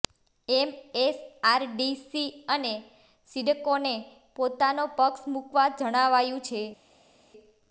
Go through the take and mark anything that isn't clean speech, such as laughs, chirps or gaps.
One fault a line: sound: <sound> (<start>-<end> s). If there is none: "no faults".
no faults